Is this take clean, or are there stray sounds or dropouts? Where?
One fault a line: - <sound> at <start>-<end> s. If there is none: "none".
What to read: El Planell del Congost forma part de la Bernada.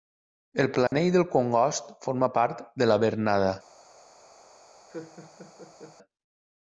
- dropout at 0.9-0.9 s
- laugh at 4.9-6.0 s